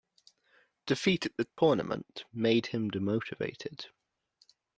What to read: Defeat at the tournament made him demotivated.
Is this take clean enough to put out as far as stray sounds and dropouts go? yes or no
no